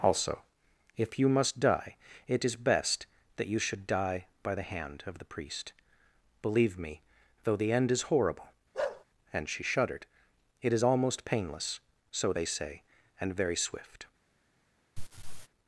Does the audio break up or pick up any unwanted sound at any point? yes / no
yes